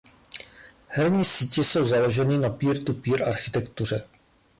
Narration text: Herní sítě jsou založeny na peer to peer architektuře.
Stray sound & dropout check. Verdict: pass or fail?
pass